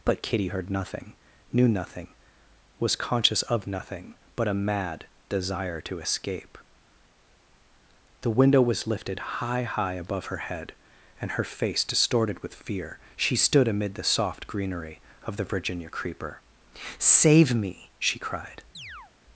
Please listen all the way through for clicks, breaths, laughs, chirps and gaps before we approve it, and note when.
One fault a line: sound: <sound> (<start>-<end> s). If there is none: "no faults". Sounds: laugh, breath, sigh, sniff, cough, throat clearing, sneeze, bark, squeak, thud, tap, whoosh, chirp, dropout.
sound: chirp (18.7-19.1 s)